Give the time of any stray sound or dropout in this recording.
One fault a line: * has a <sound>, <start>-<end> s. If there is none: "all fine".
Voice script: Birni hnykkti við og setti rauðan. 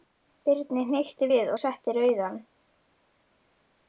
all fine